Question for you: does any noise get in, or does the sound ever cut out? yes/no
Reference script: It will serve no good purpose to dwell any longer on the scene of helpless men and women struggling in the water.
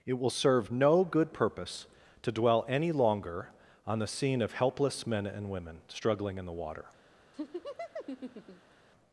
yes